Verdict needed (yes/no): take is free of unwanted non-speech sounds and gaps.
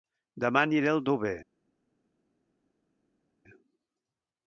yes